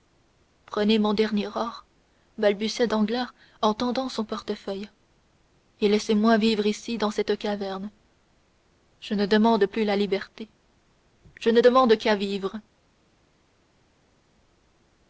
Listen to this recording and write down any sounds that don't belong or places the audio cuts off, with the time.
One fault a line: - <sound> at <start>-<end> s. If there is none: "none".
none